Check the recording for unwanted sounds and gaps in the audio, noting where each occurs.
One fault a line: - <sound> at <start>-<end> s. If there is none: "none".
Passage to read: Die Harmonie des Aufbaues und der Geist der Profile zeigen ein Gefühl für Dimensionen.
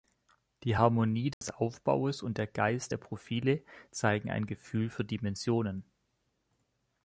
- dropout at 1.3-1.4 s